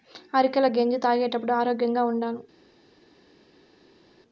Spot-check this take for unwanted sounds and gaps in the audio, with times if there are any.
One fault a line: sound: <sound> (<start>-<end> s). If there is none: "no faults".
no faults